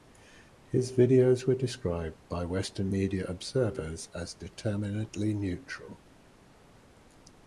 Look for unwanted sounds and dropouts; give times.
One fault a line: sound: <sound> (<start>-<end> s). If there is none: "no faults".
no faults